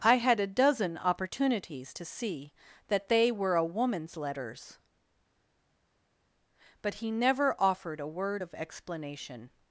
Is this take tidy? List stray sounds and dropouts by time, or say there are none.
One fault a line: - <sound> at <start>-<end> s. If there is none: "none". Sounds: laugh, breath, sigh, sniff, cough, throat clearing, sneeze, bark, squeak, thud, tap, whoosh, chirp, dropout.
none